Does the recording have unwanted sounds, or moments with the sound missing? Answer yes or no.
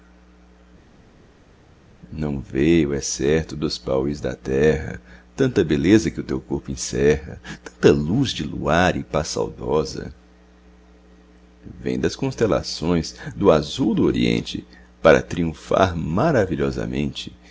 no